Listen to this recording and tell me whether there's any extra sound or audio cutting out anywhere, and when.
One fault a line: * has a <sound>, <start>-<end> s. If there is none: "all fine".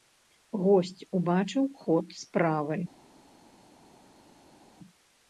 all fine